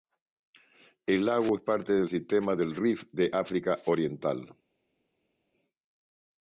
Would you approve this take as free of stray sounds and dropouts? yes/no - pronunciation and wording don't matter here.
yes